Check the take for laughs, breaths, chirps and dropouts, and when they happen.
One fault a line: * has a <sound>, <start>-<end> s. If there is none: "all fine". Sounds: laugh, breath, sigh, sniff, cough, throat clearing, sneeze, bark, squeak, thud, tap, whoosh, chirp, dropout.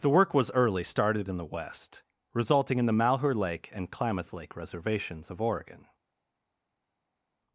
all fine